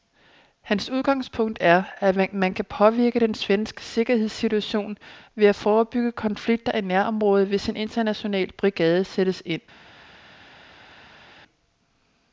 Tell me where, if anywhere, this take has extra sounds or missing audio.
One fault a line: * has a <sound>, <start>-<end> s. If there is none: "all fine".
all fine